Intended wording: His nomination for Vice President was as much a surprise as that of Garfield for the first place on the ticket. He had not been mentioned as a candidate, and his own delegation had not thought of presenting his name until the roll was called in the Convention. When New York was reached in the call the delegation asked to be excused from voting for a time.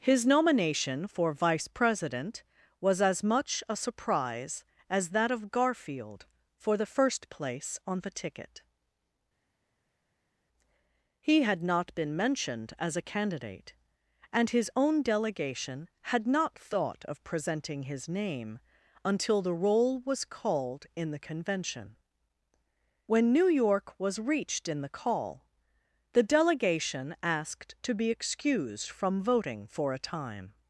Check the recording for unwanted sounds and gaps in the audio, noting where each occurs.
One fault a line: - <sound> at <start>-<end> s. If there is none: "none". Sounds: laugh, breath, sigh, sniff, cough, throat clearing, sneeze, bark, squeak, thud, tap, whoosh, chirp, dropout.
none